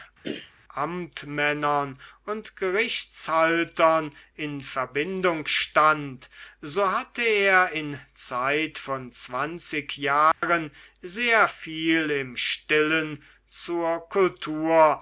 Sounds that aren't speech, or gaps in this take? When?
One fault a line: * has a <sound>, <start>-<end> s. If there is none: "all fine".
* has a throat clearing, 0.2-0.5 s
* has a dropout, 10.3-10.4 s